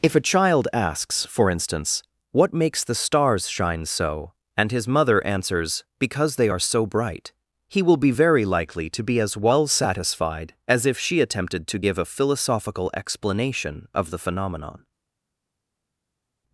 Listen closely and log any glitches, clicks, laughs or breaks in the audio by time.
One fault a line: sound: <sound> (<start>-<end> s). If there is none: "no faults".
no faults